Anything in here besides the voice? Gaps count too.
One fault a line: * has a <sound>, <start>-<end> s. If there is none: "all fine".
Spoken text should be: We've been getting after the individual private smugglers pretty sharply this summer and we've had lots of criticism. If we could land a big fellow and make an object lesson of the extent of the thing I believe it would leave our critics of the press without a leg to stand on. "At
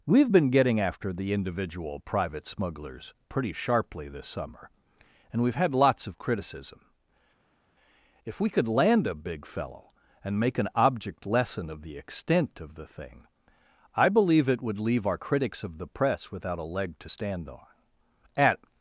all fine